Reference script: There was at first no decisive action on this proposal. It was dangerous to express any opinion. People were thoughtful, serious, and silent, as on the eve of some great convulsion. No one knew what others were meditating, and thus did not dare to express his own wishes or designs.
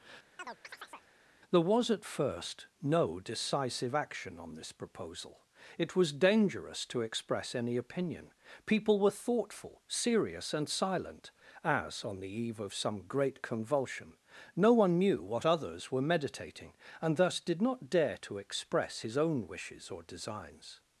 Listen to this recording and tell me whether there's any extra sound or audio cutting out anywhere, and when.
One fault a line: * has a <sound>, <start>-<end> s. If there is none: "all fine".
* has a chirp, 0.4-1.1 s